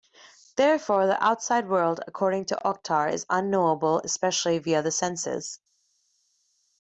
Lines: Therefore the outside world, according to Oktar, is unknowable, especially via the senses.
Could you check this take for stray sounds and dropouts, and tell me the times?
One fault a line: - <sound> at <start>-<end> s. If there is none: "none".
none